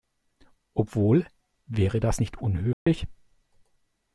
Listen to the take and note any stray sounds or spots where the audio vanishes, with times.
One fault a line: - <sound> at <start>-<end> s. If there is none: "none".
- dropout at 2.7-2.9 s